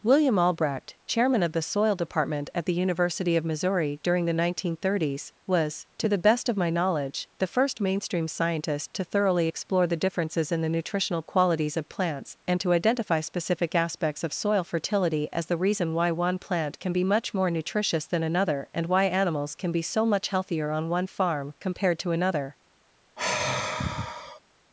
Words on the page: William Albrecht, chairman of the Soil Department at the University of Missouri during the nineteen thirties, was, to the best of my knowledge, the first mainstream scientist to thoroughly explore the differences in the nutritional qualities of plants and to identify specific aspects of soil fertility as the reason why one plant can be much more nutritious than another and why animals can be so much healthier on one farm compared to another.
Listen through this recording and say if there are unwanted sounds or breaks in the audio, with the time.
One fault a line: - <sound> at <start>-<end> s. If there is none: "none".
- sigh at 23.2-24.4 s